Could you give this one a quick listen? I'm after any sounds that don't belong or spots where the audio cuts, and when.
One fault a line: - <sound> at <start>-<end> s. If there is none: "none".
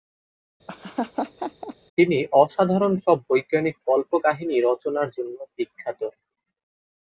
- laugh at 0.7-1.8 s